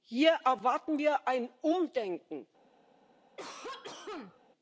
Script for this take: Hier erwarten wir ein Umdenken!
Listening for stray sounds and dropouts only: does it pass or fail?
fail